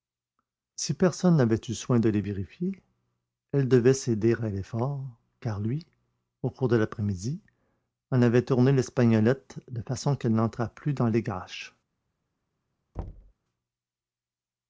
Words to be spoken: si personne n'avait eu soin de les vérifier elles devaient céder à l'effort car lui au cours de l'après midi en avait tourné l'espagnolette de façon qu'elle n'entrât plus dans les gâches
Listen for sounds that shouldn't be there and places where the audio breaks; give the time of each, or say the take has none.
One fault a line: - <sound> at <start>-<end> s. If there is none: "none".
- thud at 12.9-13.3 s